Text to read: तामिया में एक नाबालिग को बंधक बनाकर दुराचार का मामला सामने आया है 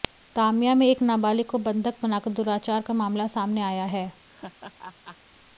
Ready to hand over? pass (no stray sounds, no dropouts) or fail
fail